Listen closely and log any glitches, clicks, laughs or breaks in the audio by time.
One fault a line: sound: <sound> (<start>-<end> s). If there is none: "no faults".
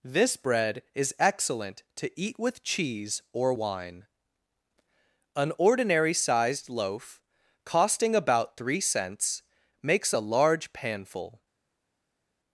no faults